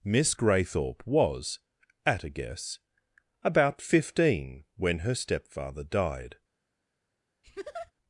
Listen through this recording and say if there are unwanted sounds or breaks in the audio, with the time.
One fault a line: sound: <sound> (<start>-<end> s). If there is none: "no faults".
sound: laugh (7.4-7.9 s)